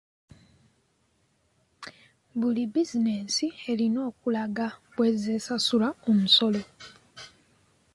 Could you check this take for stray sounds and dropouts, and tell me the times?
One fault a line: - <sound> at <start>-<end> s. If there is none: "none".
none